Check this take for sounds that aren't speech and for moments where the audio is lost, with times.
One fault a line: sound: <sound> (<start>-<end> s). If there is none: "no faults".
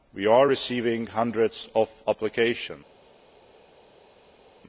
no faults